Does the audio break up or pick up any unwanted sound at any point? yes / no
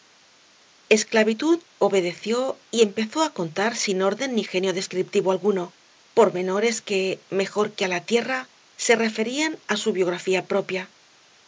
no